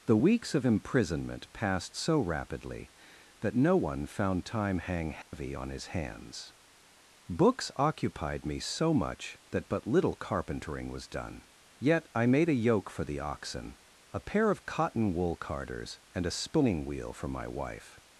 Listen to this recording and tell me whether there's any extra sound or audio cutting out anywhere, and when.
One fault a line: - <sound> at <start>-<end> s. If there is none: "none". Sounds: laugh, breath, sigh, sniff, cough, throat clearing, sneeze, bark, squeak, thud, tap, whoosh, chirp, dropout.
- dropout at 5.2-5.3 s